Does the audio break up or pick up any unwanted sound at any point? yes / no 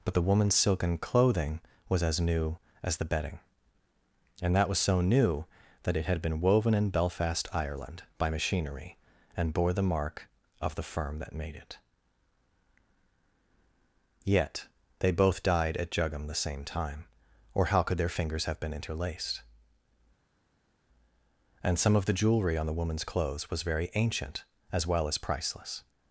no